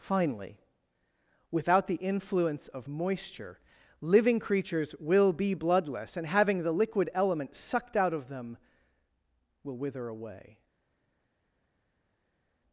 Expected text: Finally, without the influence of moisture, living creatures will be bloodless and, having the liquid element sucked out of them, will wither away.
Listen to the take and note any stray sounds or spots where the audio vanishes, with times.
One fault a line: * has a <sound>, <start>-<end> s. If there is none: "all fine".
all fine